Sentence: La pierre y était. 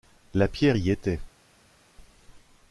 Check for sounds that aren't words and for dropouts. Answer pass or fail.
pass